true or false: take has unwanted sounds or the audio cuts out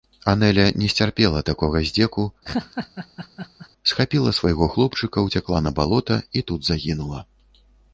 true